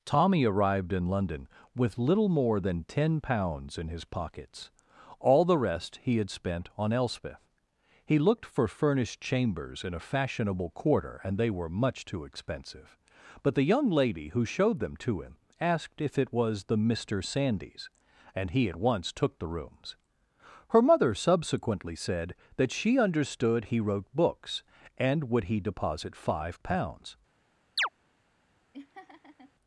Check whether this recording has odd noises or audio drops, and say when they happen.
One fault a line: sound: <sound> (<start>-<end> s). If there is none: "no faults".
sound: chirp (27.8-27.9 s)
sound: laugh (28.7-29.5 s)